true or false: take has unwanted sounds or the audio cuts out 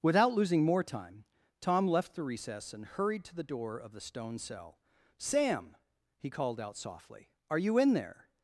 false